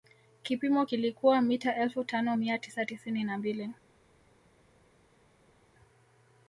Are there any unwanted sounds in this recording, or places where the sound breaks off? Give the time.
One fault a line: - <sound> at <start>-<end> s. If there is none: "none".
none